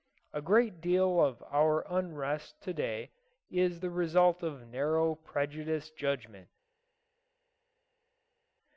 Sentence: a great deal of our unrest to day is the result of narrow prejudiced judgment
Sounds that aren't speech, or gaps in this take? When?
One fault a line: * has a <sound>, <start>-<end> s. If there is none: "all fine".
all fine